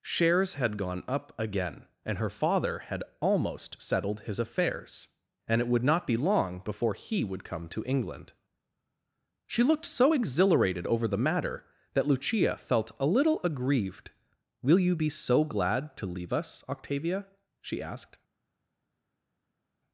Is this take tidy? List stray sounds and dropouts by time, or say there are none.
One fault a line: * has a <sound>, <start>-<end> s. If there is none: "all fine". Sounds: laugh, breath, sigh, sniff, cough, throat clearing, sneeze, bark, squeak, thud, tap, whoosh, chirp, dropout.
all fine